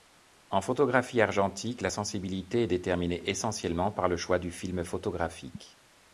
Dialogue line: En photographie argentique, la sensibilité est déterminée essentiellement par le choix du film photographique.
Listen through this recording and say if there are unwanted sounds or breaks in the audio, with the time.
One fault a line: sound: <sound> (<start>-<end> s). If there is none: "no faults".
no faults